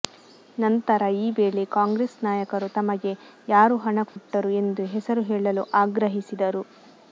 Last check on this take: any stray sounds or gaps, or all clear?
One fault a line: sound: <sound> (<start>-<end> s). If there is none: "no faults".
sound: dropout (4.1-4.2 s)